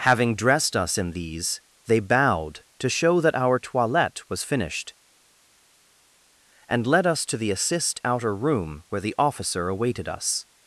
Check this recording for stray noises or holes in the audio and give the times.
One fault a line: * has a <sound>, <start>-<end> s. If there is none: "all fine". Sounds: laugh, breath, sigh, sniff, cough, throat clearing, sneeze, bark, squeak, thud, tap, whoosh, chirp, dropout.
all fine